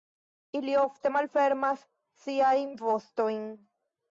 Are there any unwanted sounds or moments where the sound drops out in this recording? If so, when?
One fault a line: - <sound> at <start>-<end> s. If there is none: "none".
none